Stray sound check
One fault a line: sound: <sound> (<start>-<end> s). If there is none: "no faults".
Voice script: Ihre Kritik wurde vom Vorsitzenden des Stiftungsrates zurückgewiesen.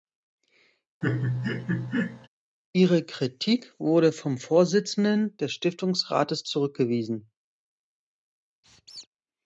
sound: laugh (1.0-2.3 s)
sound: squeak (8.6-9.1 s)